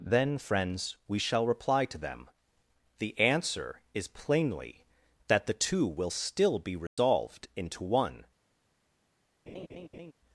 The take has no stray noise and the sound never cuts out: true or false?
false